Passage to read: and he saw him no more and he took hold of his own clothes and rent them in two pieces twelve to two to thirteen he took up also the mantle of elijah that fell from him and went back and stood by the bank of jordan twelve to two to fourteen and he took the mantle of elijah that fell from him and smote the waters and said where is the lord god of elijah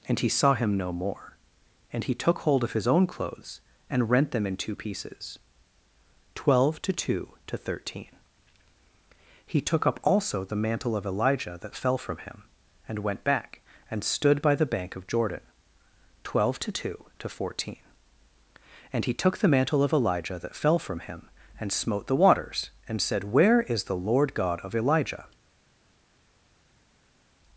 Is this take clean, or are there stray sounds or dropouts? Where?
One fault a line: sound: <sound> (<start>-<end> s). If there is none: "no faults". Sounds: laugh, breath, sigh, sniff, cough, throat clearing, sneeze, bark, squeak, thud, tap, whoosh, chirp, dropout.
no faults